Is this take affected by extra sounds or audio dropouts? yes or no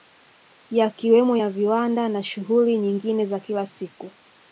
no